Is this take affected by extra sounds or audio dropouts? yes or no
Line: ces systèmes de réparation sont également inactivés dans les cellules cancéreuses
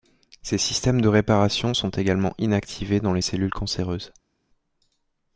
no